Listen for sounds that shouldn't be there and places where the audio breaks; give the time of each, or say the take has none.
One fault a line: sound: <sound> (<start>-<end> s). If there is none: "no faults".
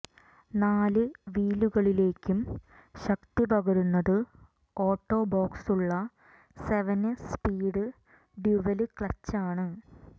no faults